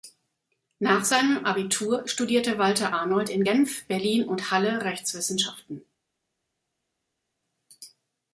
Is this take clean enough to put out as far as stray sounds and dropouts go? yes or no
yes